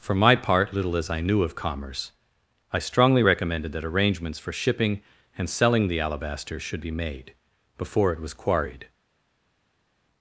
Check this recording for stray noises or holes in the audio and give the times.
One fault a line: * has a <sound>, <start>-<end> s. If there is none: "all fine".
all fine